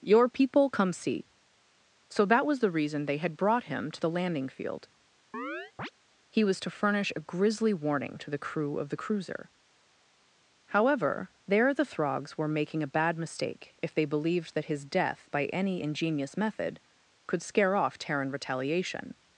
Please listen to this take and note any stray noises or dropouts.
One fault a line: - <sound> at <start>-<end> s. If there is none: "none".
- chirp at 5.3-5.9 s